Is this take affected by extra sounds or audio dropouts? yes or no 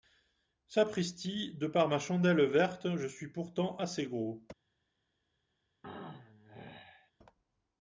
yes